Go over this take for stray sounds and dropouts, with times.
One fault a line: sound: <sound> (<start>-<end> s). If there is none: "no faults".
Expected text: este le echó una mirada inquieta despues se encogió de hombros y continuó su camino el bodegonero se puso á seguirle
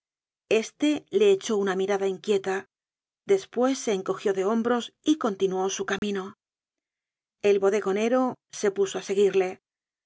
sound: dropout (6.0-6.0 s)